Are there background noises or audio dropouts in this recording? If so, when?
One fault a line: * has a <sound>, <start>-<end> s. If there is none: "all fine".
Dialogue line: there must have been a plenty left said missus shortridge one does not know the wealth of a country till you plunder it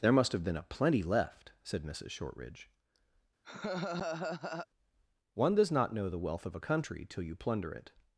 * has a laugh, 3.4-4.7 s